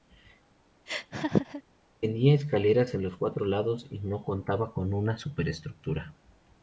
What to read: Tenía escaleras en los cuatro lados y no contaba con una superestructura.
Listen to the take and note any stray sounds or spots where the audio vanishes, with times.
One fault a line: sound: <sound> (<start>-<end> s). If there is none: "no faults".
sound: laugh (0.9-1.6 s)